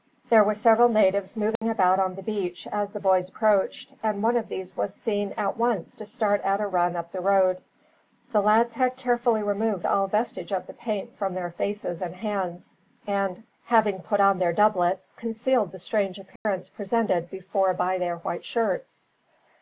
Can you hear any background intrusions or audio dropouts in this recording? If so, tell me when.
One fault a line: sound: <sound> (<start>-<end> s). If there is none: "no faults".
sound: dropout (1.6-1.6 s)
sound: dropout (16.4-16.5 s)